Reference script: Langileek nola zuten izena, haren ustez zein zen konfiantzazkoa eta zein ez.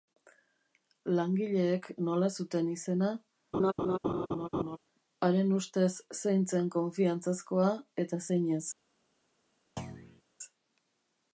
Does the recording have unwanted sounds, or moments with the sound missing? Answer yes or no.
yes